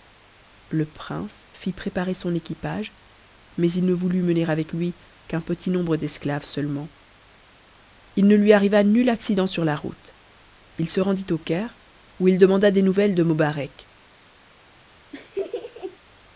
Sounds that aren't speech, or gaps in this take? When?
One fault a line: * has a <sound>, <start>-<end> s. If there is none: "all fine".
* has a laugh, 15.1-16.0 s